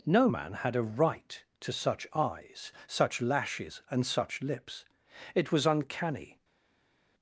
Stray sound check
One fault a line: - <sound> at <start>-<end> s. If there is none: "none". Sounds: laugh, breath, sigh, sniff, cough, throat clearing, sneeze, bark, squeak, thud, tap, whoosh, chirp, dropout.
none